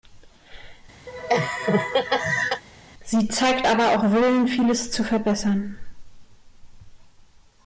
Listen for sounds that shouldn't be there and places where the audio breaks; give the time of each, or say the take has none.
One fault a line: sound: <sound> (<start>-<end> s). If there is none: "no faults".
sound: laugh (1.1-2.6 s)